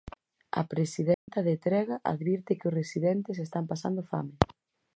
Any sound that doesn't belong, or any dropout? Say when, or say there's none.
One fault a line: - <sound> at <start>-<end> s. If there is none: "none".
- dropout at 1.1-1.3 s